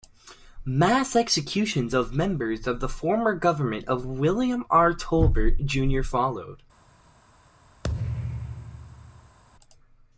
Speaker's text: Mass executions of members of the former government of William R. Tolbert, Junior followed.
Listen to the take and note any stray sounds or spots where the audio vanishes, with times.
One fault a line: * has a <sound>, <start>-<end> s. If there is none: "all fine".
* has a thud, 7.8-9.4 s